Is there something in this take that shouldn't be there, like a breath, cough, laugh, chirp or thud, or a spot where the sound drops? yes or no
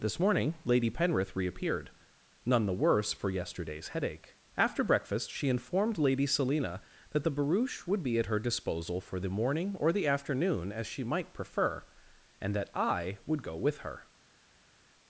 no